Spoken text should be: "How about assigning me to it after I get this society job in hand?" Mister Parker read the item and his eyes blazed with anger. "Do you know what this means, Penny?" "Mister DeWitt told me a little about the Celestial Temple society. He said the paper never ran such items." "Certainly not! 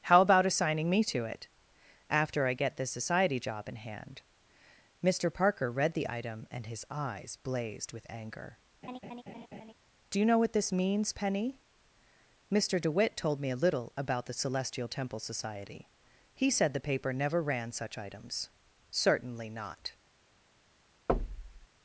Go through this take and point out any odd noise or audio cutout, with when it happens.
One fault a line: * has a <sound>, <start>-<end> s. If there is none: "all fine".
* has a laugh, 8.8-9.7 s
* has a thud, 21.1-21.7 s